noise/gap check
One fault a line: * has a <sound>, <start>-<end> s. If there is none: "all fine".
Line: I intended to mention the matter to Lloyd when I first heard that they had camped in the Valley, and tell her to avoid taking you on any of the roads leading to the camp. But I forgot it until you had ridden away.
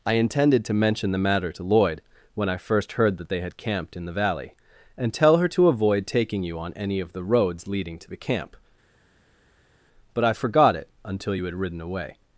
all fine